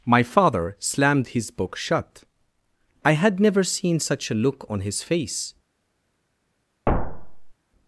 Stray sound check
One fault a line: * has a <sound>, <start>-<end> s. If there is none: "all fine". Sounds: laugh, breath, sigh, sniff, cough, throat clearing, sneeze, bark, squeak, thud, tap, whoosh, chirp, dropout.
* has a thud, 6.9-7.5 s